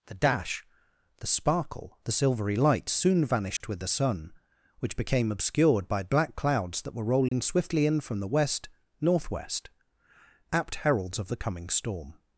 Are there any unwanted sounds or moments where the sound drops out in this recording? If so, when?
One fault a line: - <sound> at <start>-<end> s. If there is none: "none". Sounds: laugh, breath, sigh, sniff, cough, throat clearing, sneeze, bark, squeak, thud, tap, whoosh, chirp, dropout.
- dropout at 3.6-3.6 s
- dropout at 7.3-7.3 s